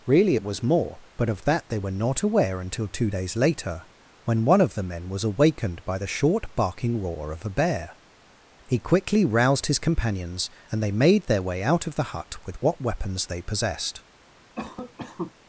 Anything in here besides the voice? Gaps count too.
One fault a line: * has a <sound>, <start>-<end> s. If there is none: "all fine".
* has a cough, 14.6-15.3 s